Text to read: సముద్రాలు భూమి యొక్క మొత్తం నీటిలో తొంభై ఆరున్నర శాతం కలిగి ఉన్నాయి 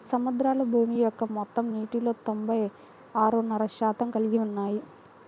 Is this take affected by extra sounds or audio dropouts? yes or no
no